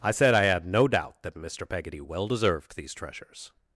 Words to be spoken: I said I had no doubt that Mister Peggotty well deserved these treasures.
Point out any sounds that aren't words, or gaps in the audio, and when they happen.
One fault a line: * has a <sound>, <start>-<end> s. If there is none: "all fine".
all fine